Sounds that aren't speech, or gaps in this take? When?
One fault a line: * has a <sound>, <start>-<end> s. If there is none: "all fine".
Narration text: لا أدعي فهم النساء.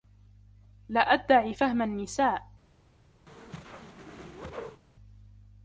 * has a whoosh, 3.3-4.8 s